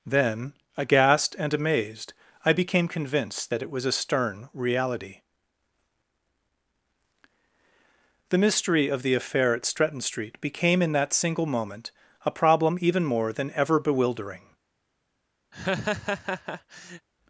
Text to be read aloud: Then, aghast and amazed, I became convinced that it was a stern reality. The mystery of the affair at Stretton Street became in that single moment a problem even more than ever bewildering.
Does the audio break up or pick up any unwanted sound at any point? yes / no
yes